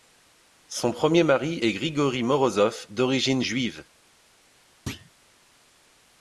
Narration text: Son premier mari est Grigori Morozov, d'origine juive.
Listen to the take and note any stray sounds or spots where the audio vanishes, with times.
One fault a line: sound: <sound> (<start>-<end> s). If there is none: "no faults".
sound: thud (4.9-5.1 s)